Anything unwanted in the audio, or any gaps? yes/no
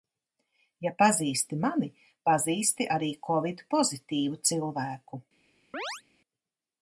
yes